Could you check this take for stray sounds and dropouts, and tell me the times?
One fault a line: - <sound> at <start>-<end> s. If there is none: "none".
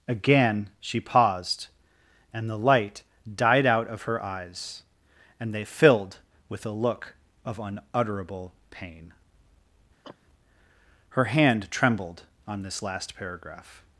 - cough at 10.0-10.2 s